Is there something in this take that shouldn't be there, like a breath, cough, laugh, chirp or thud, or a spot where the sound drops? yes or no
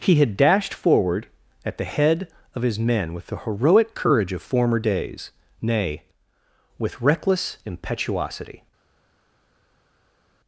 no